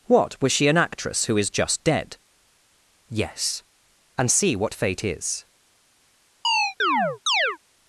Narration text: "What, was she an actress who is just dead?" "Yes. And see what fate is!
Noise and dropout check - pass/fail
fail